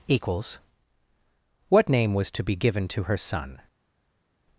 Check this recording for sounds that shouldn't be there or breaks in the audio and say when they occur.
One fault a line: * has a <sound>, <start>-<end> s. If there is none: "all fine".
all fine